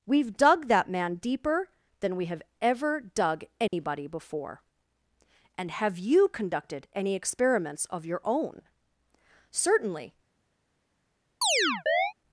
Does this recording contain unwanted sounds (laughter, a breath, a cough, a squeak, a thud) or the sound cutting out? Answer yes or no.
yes